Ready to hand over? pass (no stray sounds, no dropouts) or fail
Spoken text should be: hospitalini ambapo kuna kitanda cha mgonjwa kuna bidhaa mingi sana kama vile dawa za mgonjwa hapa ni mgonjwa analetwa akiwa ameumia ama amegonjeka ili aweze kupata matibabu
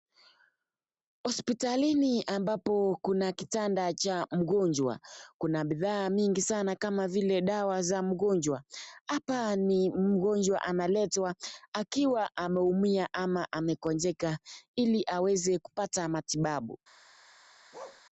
fail